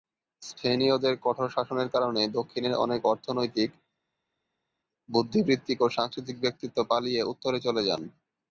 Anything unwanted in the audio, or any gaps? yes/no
no